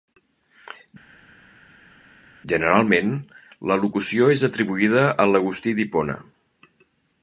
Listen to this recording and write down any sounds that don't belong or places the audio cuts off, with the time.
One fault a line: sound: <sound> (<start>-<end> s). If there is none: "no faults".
no faults